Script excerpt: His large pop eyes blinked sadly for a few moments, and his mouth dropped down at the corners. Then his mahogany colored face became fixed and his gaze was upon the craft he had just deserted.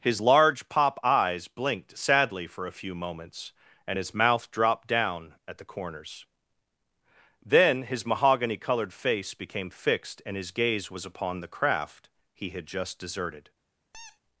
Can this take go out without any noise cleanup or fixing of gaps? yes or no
no